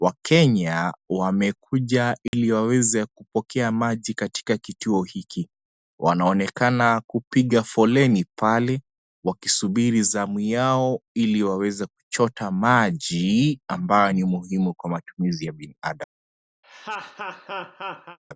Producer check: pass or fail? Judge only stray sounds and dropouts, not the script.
fail